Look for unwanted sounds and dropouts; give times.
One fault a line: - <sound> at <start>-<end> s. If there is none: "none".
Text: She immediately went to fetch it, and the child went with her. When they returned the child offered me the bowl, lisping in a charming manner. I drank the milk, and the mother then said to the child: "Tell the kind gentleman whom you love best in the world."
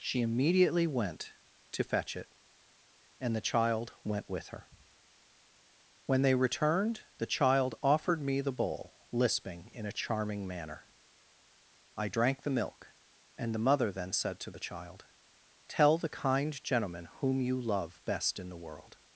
none